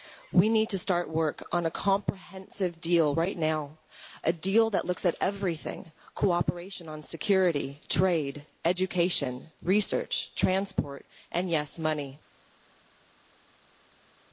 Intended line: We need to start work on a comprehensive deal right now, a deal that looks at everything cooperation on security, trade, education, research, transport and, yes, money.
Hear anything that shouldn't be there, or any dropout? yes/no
no